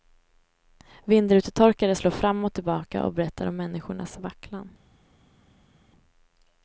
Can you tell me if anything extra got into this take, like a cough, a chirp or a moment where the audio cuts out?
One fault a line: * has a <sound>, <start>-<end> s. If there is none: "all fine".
all fine